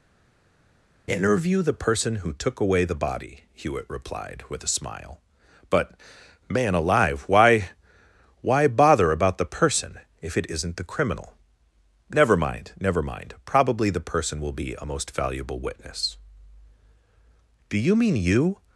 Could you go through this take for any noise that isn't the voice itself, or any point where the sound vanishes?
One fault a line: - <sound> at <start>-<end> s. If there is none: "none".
none